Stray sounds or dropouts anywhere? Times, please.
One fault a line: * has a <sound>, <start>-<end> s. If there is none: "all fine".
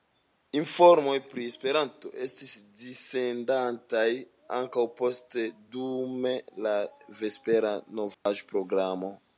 * has a dropout, 8.1-8.3 s